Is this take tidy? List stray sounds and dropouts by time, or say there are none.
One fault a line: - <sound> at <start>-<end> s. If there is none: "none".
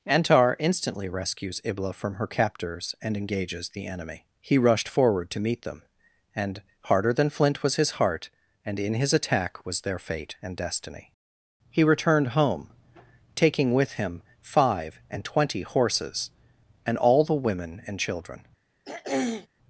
- throat clearing at 18.9-19.5 s